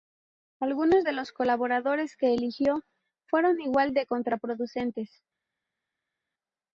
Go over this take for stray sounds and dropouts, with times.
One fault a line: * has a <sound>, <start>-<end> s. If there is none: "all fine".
all fine